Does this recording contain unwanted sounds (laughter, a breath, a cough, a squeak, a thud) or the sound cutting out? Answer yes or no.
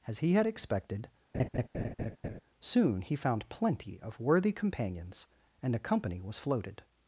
yes